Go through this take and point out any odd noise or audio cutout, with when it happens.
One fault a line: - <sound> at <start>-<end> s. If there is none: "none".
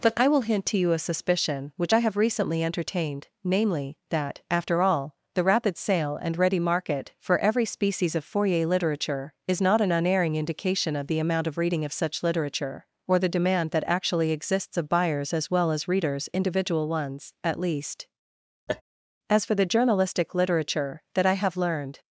- laugh at 18.7-18.8 s